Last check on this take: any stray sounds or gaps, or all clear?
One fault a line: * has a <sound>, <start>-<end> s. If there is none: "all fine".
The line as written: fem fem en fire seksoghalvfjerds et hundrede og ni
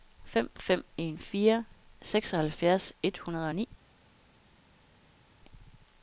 all fine